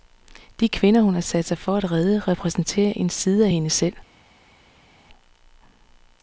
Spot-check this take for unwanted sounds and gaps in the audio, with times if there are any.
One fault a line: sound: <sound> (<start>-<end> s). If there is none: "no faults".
no faults